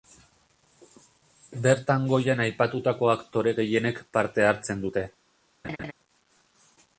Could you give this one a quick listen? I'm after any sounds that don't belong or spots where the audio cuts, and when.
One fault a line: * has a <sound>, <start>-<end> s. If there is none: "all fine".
* has a laugh, 5.6-5.9 s